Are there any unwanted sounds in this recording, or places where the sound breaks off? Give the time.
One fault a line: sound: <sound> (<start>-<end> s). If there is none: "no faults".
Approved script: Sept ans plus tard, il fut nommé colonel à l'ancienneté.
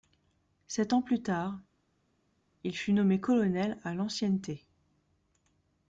no faults